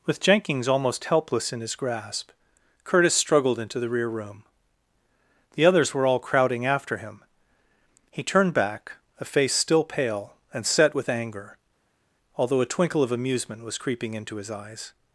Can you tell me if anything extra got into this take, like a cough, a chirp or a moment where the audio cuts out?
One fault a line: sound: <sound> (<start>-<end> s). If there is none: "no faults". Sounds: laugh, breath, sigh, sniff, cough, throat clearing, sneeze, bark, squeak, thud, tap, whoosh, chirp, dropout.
no faults